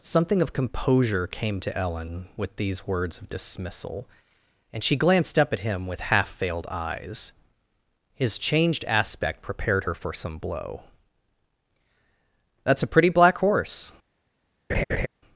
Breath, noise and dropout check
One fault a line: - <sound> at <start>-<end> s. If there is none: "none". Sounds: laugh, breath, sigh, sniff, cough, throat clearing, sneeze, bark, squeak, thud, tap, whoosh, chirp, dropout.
- laugh at 14.7-15.1 s